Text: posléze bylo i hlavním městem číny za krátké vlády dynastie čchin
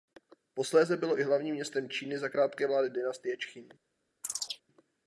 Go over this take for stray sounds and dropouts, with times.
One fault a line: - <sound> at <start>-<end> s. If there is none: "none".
- chirp at 4.2-4.6 s